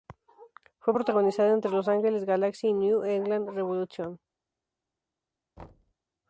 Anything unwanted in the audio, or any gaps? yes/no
yes